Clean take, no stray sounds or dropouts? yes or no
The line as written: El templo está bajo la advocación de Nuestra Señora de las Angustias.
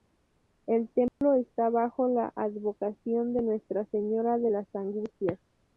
no